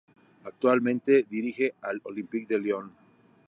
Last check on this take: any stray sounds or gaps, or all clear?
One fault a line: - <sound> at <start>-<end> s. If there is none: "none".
none